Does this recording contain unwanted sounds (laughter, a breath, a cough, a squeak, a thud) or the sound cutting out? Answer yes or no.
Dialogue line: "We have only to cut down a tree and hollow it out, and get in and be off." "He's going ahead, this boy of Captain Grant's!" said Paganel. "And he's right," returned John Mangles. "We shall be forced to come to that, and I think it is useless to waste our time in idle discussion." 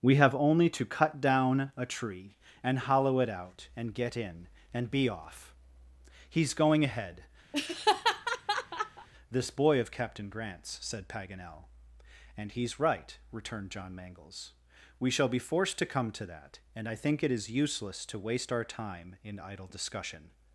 yes